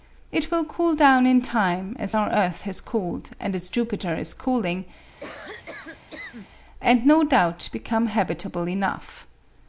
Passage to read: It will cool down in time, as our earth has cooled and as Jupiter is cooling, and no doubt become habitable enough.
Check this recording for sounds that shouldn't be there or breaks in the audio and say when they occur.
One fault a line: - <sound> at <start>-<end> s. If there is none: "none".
- cough at 5.2-6.5 s